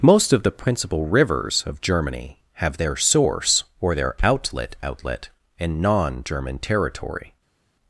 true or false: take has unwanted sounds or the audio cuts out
false